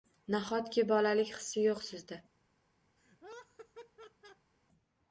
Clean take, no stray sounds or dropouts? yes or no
no